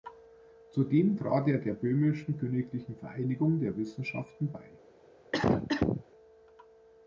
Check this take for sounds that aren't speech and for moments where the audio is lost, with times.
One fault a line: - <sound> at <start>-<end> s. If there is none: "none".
- cough at 5.3-6.0 s